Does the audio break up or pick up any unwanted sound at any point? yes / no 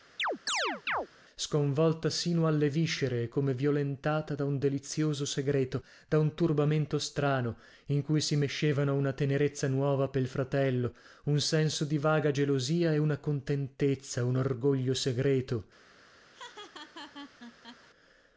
yes